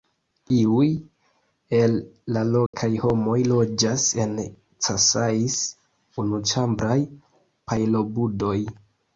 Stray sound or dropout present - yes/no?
yes